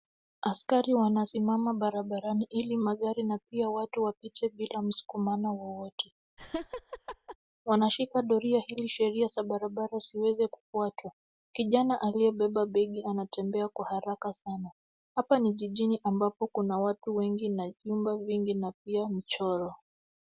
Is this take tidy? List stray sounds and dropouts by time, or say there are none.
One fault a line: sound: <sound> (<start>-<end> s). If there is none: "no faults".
sound: laugh (6.4-7.4 s)